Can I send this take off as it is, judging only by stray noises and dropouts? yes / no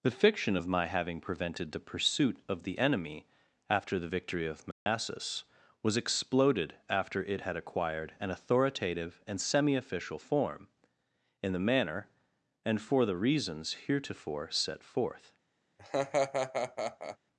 no